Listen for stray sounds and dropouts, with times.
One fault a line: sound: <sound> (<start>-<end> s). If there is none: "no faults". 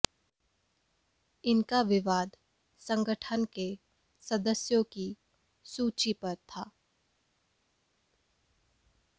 no faults